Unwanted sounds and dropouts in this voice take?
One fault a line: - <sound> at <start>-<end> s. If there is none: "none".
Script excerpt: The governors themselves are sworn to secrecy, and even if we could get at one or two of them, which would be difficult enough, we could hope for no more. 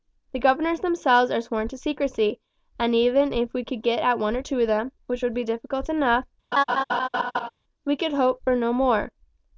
- laugh at 6.5-7.5 s